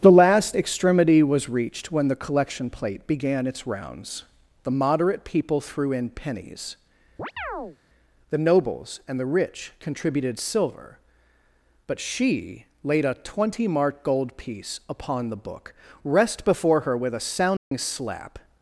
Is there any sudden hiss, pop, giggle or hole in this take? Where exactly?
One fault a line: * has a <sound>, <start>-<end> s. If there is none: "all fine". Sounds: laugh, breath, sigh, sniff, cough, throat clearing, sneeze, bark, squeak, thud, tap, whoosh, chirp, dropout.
* has a chirp, 7.2-7.8 s
* has a dropout, 17.6-17.7 s